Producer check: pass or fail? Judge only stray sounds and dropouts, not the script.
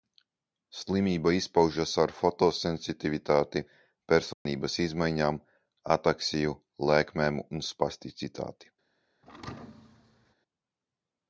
fail